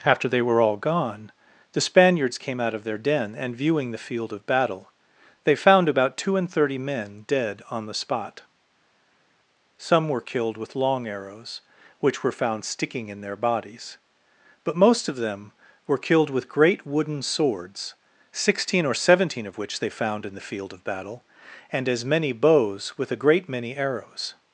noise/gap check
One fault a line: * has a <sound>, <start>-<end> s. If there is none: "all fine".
all fine